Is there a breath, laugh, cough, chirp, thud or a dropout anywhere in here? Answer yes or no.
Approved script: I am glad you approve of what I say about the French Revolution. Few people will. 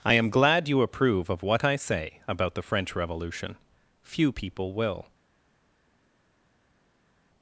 no